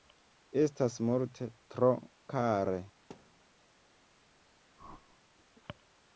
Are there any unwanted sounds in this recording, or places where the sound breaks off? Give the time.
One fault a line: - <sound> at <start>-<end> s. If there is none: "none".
- thud at 3.1-3.4 s
- whoosh at 4.8-5.2 s